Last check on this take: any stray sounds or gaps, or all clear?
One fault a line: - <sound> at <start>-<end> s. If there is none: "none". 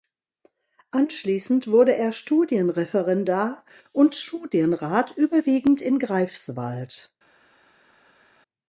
none